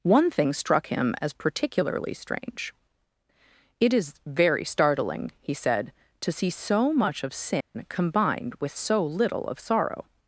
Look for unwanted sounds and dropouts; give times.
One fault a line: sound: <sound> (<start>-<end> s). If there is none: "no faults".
sound: dropout (7.6-7.7 s)